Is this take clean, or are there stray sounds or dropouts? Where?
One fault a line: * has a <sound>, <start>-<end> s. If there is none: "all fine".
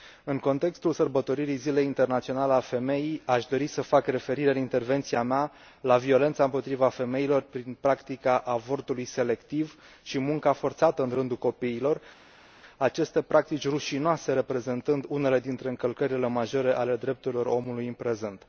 all fine